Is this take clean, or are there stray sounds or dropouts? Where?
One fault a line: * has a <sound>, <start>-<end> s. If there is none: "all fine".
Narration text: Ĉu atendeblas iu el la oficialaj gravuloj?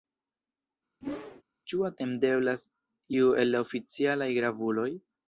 * has a whoosh, 1.0-1.4 s